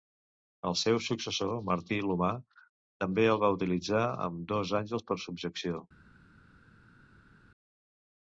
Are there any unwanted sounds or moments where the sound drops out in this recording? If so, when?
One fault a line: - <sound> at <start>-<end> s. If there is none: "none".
none